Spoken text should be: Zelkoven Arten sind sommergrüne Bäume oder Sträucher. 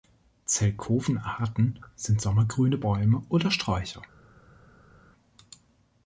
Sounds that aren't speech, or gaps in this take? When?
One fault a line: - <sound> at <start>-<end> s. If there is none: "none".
none